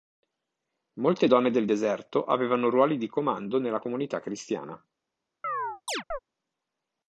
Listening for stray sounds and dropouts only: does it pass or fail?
fail